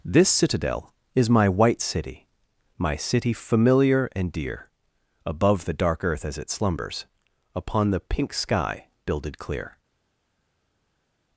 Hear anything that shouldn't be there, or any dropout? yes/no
no